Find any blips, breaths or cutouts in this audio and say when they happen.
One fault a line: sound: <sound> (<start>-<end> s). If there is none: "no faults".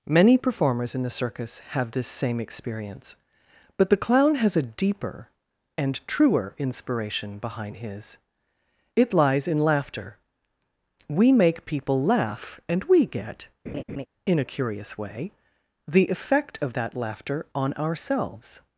sound: laugh (13.7-14.1 s)